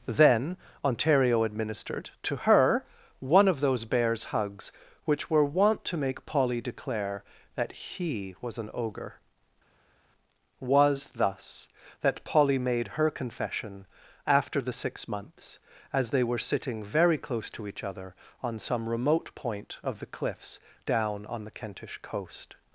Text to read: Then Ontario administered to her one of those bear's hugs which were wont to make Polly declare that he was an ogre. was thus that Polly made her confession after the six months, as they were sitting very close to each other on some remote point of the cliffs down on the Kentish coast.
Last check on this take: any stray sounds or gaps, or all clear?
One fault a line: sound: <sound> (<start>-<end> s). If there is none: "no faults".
no faults